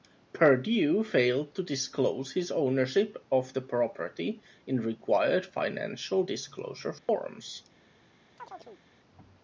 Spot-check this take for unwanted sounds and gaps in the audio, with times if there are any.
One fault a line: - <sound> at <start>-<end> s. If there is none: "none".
- dropout at 7.0-7.1 s
- chirp at 8.4-8.8 s